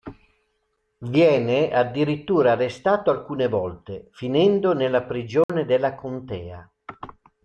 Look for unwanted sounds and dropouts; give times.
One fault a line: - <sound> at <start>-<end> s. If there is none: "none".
- dropout at 5.4-5.5 s